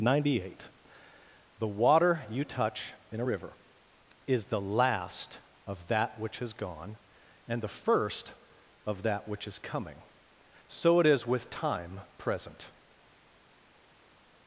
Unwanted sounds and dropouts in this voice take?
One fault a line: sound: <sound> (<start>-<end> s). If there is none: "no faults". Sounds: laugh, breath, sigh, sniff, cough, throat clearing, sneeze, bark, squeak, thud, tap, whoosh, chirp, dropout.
no faults